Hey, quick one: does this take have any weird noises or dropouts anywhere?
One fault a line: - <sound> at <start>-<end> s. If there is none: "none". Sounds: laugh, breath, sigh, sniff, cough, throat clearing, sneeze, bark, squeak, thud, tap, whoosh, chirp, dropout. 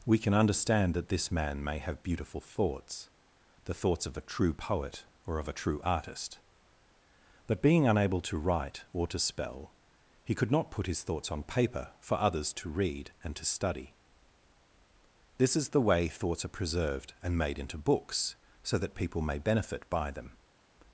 none